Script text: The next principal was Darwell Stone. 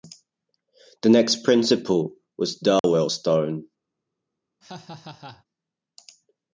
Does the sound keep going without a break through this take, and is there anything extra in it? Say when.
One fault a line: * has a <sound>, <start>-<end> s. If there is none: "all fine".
* has a dropout, 2.8-2.8 s
* has a laugh, 4.6-5.4 s